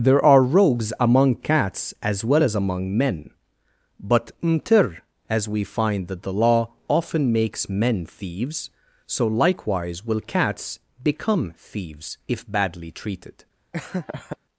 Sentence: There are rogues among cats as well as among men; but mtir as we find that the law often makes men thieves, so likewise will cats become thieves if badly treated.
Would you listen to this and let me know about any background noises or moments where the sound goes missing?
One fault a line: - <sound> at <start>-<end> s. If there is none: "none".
- laugh at 13.7-14.4 s